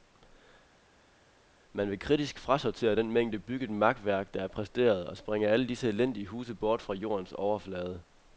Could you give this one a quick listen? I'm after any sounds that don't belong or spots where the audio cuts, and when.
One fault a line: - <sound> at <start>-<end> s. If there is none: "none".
none